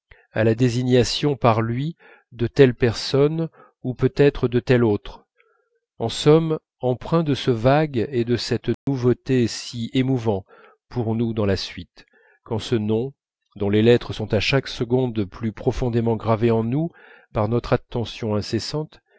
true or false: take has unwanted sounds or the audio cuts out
true